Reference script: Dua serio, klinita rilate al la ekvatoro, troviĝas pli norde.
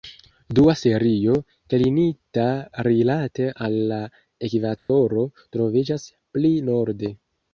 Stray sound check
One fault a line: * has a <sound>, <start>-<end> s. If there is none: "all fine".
* has a dropout, 4.8-4.9 s